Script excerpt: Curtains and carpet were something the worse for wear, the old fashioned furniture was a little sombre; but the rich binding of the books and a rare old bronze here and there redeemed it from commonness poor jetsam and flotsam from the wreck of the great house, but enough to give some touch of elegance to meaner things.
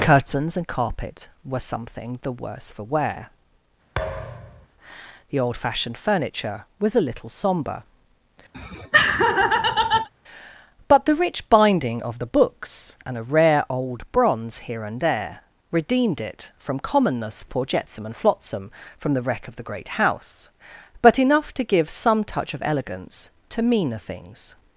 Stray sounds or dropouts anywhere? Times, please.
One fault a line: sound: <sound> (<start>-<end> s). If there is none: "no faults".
sound: thud (4.0-4.7 s)
sound: laugh (8.5-10.1 s)